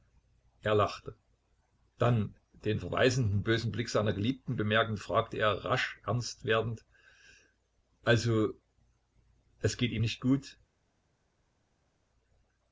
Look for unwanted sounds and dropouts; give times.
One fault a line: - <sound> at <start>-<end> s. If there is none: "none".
none